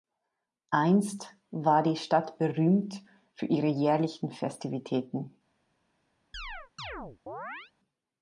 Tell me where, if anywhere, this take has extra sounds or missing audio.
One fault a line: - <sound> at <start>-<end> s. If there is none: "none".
- chirp at 6.3-7.7 s